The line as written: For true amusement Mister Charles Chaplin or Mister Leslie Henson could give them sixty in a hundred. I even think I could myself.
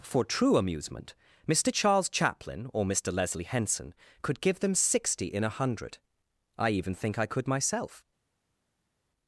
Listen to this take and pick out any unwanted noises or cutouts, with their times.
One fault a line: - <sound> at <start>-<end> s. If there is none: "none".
none